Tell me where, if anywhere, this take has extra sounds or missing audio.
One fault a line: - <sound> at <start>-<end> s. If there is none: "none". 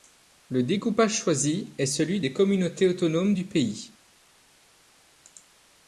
none